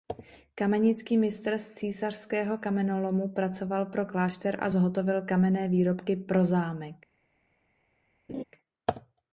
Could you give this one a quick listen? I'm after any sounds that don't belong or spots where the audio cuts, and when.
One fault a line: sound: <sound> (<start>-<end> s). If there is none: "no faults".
sound: laugh (8.3-8.4 s)